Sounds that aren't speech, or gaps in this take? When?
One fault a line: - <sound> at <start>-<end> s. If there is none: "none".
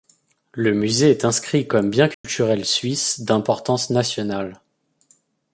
- dropout at 2.1-2.2 s